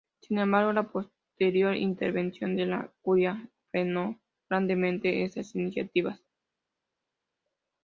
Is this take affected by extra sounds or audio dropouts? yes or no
no